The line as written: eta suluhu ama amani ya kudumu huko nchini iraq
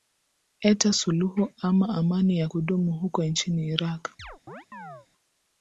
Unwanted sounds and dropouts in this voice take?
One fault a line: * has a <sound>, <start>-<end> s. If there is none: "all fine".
* has a chirp, 4.2-5.1 s